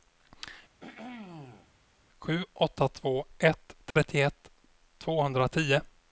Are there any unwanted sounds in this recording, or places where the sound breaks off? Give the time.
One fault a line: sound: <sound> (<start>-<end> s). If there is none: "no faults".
sound: throat clearing (0.8-1.7 s)
sound: dropout (3.9-4.0 s)